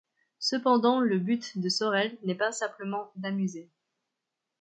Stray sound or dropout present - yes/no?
no